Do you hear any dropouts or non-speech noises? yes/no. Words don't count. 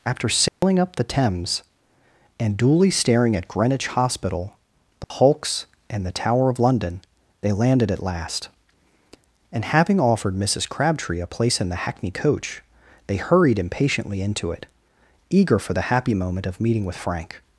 yes